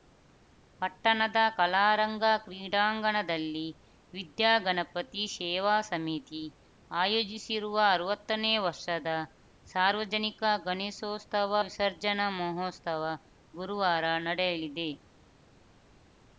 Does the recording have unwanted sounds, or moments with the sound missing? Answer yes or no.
no